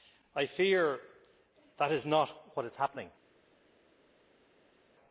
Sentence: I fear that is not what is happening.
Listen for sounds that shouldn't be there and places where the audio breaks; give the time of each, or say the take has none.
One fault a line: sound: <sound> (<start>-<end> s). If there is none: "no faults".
no faults